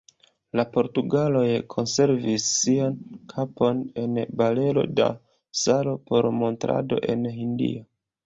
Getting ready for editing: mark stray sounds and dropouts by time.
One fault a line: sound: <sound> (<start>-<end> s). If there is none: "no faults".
no faults